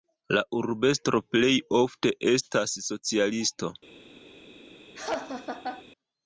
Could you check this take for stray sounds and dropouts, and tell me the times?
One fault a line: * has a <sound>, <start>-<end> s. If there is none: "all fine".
* has a laugh, 4.9-5.8 s